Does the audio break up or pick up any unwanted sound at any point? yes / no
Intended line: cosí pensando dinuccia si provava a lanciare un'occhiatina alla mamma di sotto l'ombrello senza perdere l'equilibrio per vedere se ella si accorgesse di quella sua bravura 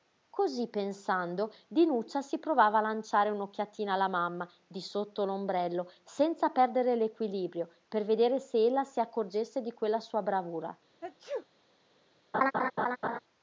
yes